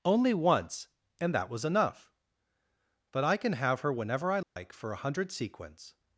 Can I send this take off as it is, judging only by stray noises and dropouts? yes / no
no